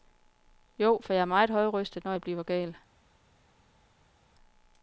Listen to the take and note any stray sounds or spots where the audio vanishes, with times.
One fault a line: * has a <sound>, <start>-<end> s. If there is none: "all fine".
all fine